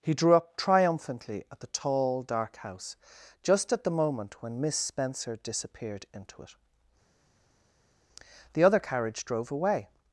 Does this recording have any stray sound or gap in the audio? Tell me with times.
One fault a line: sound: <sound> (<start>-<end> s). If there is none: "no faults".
no faults